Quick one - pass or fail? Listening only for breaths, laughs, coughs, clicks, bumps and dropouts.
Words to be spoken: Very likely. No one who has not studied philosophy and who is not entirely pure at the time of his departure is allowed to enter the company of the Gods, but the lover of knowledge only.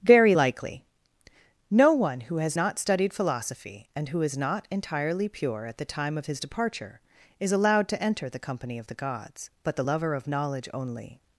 pass